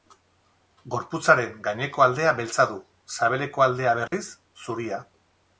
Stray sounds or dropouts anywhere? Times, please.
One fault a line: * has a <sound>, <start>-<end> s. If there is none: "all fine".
* has a dropout, 4.1-4.1 s